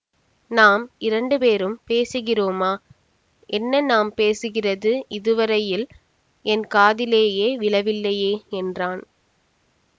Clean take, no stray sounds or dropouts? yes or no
yes